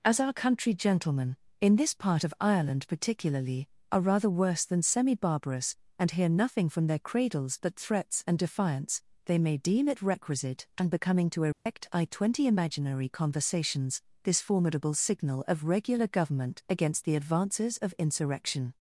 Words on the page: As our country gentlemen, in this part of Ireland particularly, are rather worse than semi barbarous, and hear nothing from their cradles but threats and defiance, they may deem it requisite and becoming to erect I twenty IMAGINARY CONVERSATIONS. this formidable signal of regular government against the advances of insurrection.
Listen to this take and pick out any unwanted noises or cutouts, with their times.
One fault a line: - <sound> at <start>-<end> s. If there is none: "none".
- dropout at 11.5-11.7 s